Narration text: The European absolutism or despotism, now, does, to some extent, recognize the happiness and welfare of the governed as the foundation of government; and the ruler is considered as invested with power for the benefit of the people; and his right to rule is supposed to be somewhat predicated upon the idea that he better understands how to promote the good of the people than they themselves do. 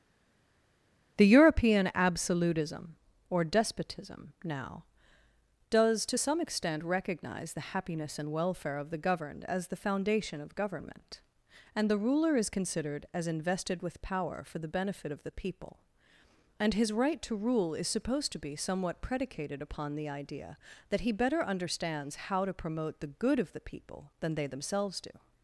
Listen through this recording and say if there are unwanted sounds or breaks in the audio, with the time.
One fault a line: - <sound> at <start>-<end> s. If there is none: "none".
none